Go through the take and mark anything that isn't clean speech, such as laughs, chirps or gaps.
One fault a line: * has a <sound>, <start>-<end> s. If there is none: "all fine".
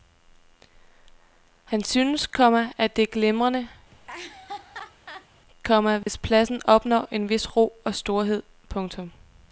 * has a laugh, 3.9-5.3 s
* has a dropout, 6.0-6.1 s